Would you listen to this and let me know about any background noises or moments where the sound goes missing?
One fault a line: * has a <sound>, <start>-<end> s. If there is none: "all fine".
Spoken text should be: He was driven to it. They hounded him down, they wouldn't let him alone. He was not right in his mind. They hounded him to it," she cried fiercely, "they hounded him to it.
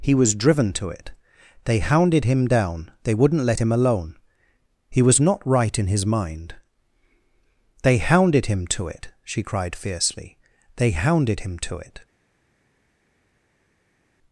all fine